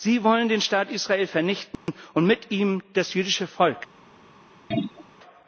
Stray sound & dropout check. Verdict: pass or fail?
fail